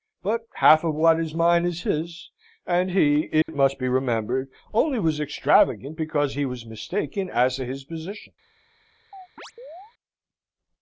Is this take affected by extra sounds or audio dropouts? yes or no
yes